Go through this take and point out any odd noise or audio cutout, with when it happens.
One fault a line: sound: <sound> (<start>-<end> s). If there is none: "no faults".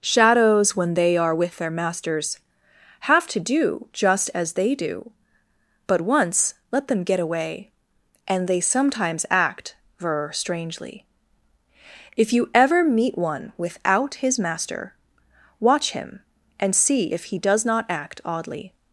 no faults